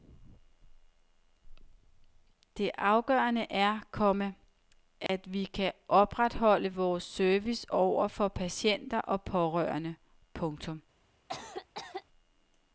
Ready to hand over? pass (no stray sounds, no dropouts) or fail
fail